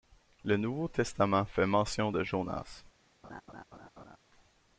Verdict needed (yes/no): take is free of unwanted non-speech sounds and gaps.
no